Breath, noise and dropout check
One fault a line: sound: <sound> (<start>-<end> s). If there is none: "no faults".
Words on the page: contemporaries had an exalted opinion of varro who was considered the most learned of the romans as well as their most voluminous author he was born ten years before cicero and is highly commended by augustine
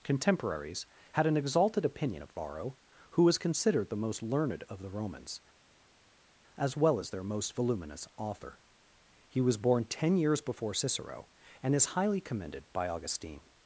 no faults